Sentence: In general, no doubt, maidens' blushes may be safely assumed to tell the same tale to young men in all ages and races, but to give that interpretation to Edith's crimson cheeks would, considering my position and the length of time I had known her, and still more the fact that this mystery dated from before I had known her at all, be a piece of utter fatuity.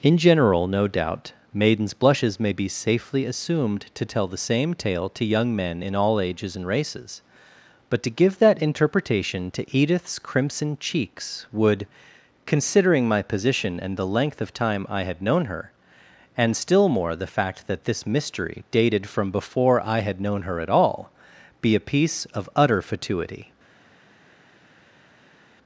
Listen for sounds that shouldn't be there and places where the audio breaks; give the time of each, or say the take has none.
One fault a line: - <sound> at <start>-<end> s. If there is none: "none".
none